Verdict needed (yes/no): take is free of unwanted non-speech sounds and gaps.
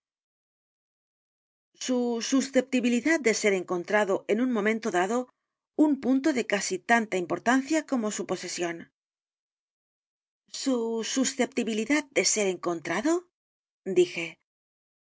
yes